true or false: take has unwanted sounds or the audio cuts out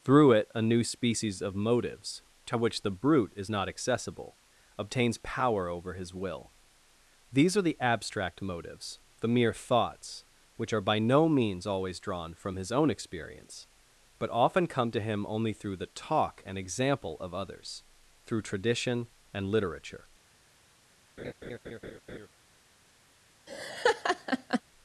true